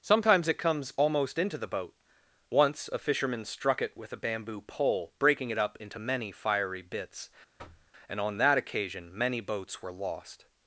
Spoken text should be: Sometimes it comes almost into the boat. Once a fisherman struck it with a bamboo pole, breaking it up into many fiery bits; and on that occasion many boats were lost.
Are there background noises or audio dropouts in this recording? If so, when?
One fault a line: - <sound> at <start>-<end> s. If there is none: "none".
- thud at 7.6-7.9 s